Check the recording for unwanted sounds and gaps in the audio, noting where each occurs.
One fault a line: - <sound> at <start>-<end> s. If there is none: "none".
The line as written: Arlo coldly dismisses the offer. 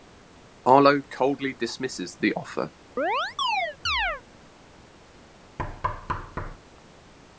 - chirp at 3.0-4.2 s
- thud at 5.6-6.6 s